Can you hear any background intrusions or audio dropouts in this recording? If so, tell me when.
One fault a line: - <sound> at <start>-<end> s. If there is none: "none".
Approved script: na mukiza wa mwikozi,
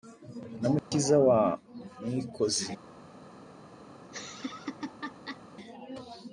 - dropout at 0.8-0.9 s
- laugh at 4.0-5.4 s